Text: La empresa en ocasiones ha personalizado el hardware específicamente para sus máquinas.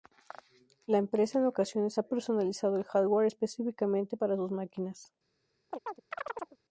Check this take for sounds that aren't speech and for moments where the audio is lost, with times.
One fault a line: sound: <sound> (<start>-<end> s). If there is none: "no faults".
sound: chirp (5.7-6.6 s)